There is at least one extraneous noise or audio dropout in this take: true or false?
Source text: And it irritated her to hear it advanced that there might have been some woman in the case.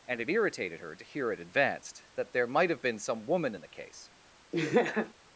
true